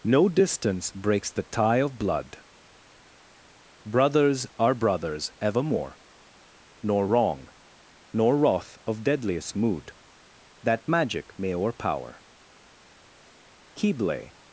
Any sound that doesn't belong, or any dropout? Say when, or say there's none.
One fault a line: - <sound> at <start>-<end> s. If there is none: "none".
none